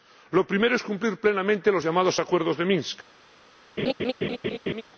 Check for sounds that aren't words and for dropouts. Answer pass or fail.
fail